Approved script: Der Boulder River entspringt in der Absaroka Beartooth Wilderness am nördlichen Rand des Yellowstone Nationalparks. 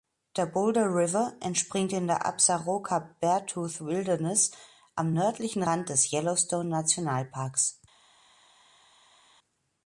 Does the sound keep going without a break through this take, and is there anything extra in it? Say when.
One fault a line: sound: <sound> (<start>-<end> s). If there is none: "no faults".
no faults